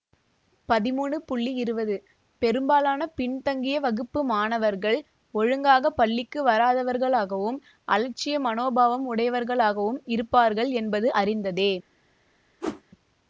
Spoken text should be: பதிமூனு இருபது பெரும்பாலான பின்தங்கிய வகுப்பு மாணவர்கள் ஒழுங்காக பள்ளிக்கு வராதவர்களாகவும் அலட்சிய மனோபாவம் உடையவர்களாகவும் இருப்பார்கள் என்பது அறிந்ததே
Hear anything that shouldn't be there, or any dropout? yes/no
yes